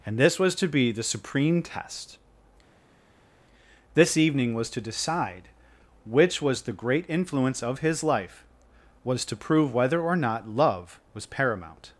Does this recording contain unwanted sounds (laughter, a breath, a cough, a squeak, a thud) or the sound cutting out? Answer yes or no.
no